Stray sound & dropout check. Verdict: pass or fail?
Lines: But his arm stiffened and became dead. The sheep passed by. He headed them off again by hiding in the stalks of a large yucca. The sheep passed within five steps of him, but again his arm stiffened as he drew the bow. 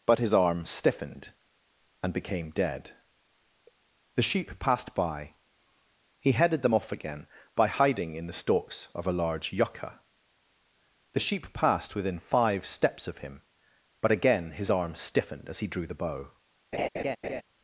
fail